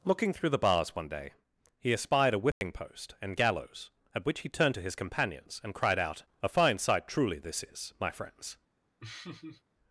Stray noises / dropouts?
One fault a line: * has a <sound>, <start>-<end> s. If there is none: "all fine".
* has a dropout, 2.5-2.6 s
* has a laugh, 9.0-9.6 s